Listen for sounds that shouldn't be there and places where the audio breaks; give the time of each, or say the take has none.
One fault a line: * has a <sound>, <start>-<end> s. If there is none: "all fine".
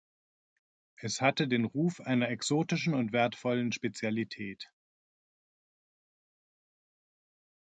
all fine